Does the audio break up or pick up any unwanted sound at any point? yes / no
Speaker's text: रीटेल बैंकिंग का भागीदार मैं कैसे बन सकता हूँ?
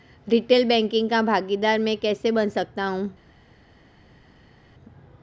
no